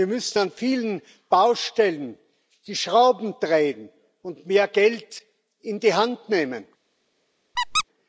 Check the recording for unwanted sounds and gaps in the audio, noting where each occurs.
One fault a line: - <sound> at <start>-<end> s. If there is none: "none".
- squeak at 7.6-7.8 s